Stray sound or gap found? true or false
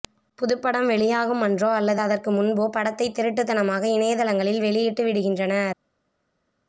false